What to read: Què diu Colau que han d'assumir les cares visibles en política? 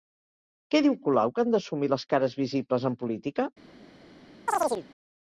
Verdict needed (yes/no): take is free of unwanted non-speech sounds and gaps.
no